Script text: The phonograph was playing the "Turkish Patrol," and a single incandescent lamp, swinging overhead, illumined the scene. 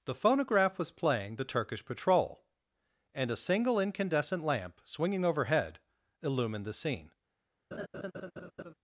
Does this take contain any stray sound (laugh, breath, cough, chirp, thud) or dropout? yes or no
yes